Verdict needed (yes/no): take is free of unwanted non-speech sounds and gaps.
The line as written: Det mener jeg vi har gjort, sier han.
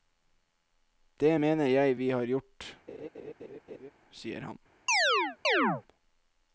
no